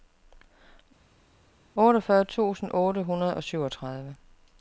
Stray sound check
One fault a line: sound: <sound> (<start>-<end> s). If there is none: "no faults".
no faults